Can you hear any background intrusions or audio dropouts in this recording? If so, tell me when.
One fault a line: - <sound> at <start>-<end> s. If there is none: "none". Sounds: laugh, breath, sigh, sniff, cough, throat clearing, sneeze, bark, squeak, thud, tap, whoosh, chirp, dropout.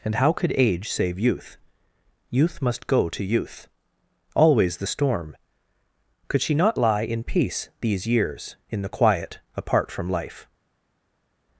none